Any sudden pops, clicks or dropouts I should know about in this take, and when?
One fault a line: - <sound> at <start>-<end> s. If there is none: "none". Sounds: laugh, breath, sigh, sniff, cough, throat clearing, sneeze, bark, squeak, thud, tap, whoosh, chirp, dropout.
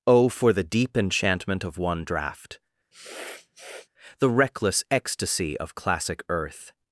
- sniff at 2.9-3.9 s